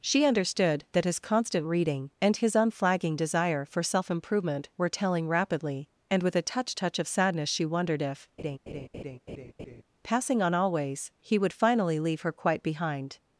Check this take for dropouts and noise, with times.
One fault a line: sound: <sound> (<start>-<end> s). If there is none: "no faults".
sound: laugh (8.4-9.8 s)